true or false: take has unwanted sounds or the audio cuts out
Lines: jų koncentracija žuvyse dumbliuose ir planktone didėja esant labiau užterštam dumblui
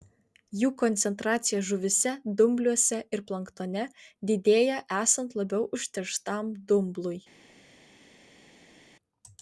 false